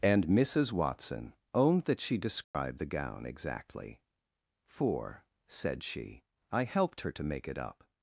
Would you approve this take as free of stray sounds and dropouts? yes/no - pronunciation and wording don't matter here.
no